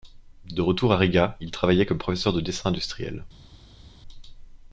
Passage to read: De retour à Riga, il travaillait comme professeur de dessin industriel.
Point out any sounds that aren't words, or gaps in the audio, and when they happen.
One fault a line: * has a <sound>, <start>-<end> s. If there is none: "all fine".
all fine